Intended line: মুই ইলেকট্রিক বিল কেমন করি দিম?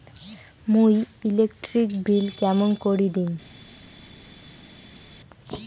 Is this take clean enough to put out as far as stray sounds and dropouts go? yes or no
yes